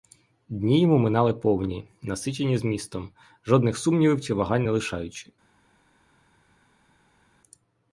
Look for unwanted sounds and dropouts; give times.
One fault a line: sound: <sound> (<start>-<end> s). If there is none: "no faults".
no faults